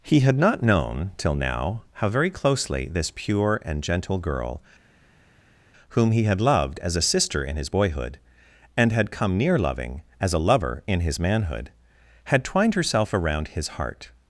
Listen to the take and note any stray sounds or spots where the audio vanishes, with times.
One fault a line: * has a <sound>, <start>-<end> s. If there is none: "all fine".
all fine